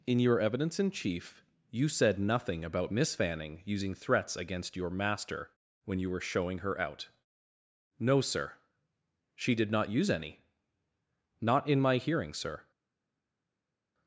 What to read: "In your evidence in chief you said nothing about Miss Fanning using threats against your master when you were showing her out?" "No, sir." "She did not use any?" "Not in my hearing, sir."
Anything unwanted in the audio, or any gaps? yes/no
no